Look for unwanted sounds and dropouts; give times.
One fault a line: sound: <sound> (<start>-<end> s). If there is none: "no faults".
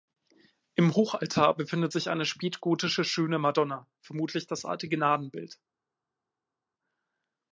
no faults